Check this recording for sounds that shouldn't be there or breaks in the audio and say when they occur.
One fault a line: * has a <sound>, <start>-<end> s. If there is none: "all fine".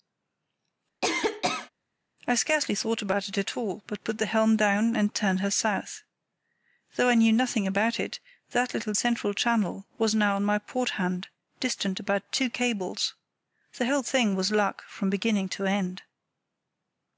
* has a cough, 1.0-1.7 s